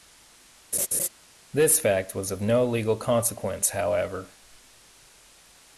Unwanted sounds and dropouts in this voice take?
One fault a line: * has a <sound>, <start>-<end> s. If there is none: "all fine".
* has a laugh, 0.7-1.1 s